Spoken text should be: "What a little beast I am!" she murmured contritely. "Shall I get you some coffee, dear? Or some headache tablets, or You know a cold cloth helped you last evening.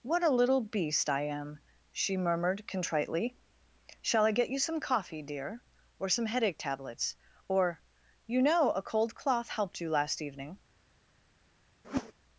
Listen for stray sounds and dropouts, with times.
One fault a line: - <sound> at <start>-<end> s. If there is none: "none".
- whoosh at 11.8-12.1 s